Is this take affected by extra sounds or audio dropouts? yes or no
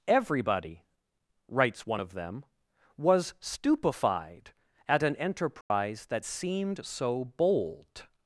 yes